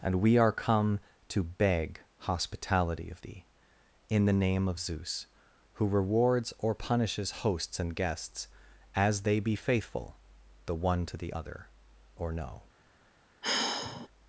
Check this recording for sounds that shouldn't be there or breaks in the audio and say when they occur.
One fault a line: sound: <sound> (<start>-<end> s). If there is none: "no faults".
sound: sigh (13.4-14.1 s)